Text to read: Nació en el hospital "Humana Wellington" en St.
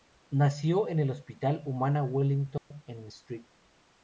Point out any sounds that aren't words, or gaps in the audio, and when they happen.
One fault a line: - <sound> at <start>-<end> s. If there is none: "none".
- dropout at 2.6-2.7 s